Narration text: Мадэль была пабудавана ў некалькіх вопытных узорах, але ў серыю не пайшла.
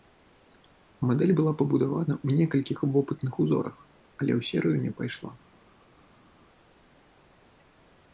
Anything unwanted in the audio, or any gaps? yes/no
no